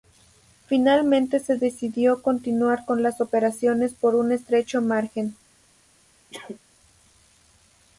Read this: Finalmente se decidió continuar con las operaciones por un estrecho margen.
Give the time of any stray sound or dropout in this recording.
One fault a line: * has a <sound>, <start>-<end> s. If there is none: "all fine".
* has a sneeze, 6.3-6.6 s